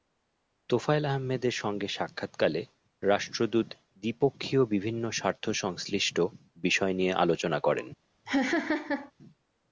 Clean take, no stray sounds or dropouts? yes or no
no